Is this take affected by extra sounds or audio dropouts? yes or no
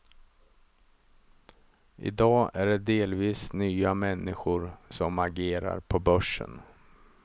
no